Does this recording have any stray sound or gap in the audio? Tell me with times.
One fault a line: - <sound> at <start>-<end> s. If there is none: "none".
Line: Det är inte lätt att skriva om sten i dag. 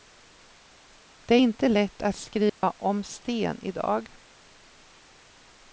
- dropout at 2.5-2.6 s